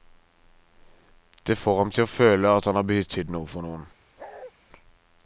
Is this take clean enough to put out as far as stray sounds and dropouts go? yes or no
no